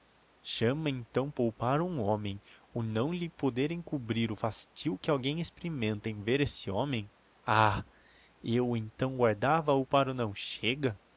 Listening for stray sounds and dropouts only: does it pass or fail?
pass